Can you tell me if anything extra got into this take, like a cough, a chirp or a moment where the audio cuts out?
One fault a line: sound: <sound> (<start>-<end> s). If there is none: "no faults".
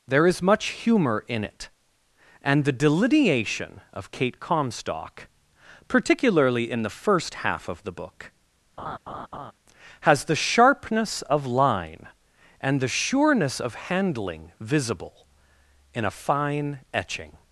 sound: laugh (8.8-9.5 s)